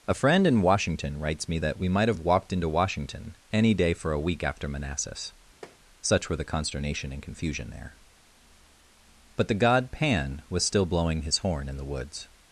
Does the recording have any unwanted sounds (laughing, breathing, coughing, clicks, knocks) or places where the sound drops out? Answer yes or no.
yes